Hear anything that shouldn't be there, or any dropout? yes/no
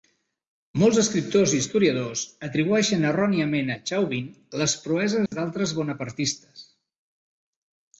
yes